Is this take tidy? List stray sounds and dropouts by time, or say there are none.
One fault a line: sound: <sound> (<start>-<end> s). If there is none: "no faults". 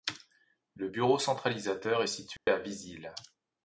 sound: dropout (2.4-2.5 s)